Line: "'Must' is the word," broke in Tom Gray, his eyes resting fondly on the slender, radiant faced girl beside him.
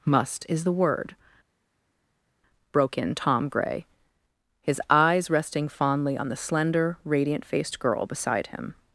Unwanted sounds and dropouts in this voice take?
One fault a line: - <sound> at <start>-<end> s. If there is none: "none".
none